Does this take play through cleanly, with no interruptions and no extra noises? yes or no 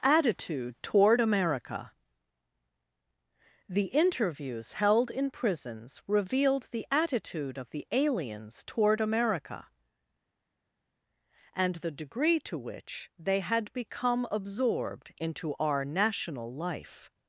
yes